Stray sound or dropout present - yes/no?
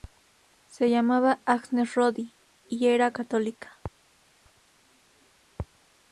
no